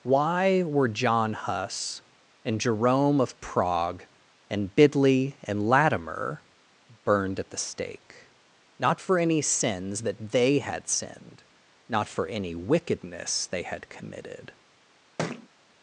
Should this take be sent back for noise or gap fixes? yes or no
yes